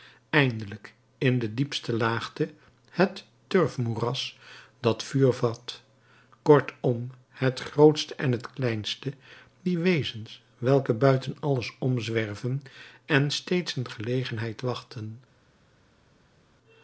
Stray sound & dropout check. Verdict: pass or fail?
pass